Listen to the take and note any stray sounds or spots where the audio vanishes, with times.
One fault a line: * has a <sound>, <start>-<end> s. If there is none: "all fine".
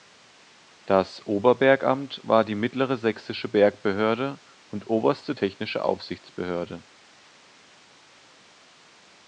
all fine